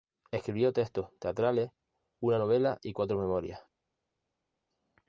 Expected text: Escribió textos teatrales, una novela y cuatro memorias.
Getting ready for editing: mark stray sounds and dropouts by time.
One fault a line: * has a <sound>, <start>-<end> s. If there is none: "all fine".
all fine